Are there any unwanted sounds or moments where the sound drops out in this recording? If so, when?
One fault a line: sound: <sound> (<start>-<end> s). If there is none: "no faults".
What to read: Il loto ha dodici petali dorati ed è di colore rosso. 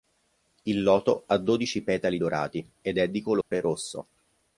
sound: dropout (3.4-3.5 s)